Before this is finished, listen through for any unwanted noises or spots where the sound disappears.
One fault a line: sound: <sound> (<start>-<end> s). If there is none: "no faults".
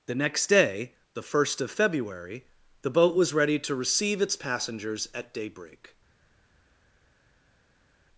no faults